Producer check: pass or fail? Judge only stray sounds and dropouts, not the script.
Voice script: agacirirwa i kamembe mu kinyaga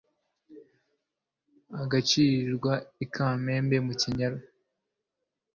pass